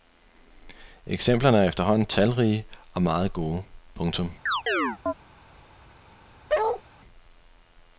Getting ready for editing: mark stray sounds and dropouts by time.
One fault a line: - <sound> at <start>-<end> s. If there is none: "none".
- chirp at 4.5-5.1 s
- bark at 6.5-6.8 s